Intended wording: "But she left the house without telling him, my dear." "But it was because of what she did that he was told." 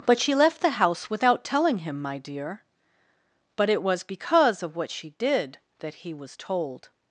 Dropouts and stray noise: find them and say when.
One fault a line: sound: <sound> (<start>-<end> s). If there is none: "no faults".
no faults